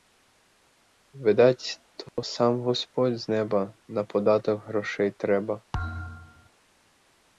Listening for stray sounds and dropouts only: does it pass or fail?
fail